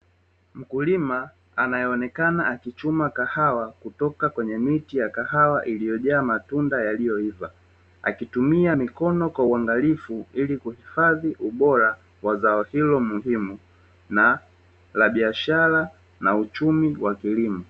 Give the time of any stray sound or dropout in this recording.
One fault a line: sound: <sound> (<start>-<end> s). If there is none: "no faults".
no faults